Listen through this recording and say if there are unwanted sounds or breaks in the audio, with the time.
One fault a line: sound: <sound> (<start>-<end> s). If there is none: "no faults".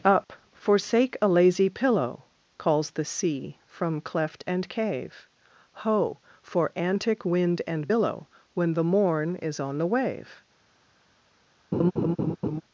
sound: laugh (11.7-12.6 s)